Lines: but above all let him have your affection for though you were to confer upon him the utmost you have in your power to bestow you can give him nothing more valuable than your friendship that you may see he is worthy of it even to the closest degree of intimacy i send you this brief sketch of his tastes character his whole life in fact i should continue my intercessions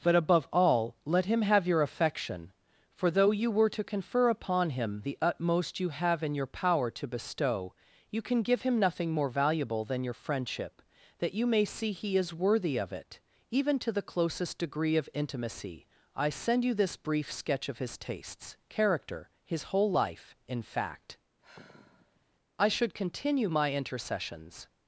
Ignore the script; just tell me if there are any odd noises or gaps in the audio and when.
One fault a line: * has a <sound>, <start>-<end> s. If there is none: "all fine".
* has a sigh, 21.4-22.2 s